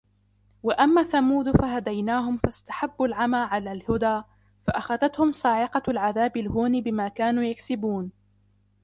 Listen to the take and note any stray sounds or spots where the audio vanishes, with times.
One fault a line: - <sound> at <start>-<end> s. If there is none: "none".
none